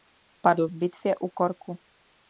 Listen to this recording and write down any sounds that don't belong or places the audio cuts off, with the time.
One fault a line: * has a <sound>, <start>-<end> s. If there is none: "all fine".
all fine